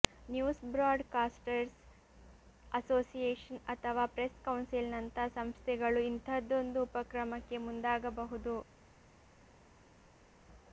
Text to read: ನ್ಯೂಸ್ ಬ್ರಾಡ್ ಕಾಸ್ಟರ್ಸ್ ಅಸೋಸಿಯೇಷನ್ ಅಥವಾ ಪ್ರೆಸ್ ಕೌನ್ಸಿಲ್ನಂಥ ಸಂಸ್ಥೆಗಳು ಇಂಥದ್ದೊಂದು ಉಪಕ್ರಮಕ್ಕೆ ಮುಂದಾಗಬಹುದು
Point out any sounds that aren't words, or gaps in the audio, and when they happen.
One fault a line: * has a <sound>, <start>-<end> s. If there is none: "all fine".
all fine